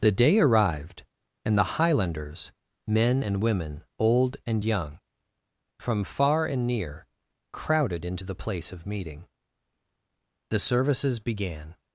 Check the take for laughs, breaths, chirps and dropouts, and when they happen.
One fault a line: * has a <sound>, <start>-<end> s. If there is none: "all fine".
all fine